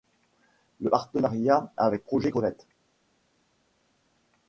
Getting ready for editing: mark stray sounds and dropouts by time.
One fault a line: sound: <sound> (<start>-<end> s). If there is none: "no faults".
no faults